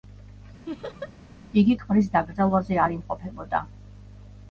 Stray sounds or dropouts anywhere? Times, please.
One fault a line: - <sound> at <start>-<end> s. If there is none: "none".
- laugh at 0.7-1.1 s